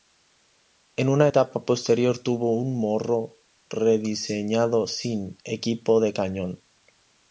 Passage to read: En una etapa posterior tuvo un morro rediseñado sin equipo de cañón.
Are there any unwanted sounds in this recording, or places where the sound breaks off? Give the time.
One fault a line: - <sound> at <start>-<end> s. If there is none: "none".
none